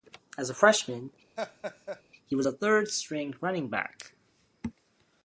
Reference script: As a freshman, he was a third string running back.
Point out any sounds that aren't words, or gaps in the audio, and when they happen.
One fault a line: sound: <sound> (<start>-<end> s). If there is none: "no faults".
sound: laugh (1.4-2.0 s)